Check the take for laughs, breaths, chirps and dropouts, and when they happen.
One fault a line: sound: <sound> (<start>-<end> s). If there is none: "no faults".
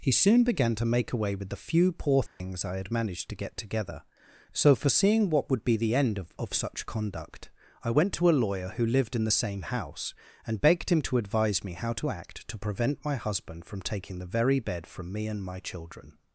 sound: dropout (2.3-2.4 s)